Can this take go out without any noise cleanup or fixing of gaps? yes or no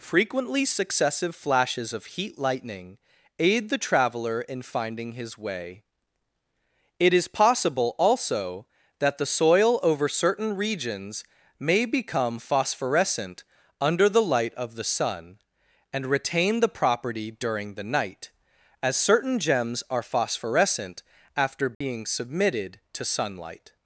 no